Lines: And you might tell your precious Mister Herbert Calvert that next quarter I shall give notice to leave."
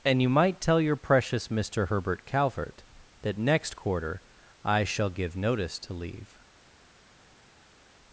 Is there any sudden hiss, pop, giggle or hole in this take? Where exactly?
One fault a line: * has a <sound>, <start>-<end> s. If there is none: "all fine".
all fine